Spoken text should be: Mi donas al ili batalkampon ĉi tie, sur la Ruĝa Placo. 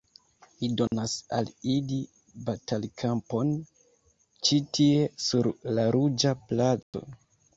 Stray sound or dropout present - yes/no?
yes